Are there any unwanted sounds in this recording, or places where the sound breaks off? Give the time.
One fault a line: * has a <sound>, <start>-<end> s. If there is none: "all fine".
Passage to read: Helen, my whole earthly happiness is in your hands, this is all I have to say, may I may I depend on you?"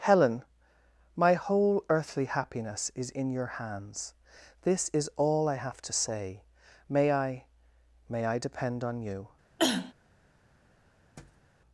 * has a cough, 9.6-9.9 s
* has a thud, 11.2-11.5 s